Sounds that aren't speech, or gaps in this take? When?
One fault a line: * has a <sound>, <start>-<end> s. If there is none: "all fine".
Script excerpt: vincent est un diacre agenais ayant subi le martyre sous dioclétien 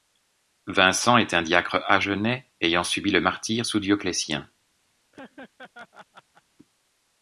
* has a laugh, 5.1-6.4 s